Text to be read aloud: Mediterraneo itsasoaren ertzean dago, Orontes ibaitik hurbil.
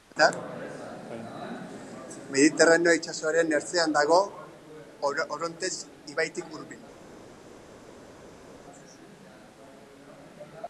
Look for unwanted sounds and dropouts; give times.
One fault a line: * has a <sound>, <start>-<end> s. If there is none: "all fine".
all fine